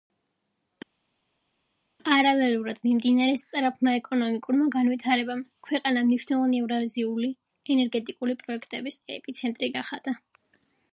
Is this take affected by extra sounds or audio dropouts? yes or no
no